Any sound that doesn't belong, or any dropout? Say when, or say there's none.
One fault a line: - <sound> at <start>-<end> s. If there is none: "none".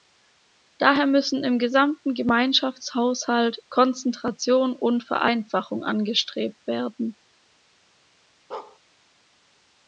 - bark at 8.5-8.8 s